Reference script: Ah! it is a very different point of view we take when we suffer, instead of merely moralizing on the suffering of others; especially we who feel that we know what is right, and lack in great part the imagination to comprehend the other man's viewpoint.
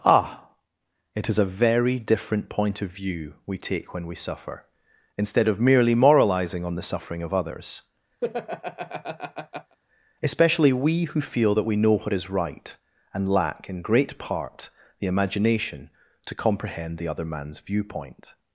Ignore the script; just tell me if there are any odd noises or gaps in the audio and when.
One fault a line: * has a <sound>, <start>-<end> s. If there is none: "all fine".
* has a laugh, 8.2-9.8 s